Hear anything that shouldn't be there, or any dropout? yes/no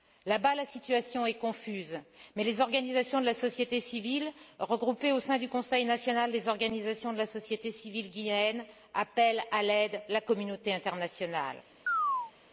yes